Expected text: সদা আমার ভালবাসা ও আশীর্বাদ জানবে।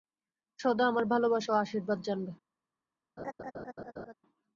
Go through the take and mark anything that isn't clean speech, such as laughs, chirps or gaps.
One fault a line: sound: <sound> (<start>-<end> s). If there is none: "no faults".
sound: laugh (3.2-4.1 s)